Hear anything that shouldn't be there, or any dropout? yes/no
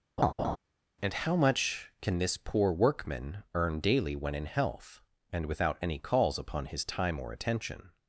yes